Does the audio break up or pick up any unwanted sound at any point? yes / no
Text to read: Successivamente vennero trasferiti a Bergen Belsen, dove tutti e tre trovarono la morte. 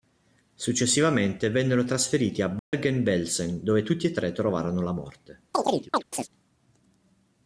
yes